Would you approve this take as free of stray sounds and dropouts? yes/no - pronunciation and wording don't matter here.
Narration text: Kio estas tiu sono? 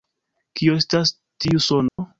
no